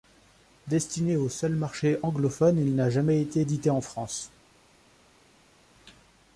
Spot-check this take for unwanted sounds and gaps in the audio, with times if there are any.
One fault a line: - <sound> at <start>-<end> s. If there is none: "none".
none